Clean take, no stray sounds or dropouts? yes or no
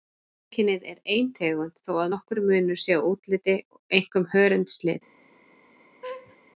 no